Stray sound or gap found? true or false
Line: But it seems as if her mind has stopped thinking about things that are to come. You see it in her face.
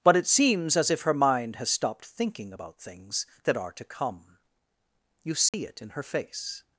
true